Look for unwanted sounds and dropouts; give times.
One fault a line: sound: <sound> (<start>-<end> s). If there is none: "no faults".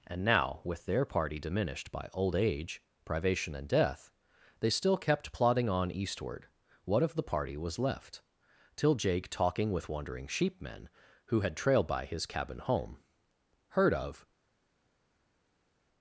no faults